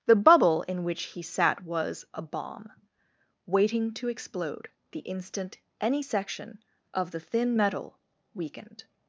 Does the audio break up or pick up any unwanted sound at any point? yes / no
no